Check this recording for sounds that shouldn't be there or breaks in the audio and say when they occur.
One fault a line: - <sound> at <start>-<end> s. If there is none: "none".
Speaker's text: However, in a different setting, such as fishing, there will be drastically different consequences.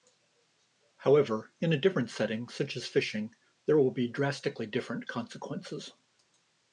none